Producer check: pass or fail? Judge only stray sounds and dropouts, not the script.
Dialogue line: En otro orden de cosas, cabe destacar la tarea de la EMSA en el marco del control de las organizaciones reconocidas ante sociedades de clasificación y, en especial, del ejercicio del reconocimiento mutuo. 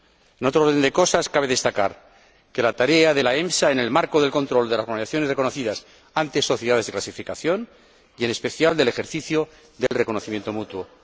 fail